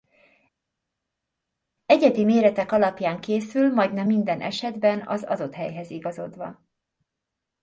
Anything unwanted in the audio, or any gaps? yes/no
no